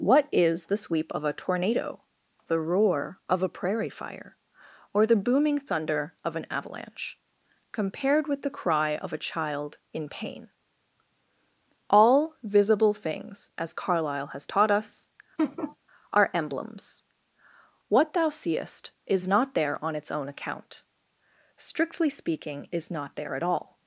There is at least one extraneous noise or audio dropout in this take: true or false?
true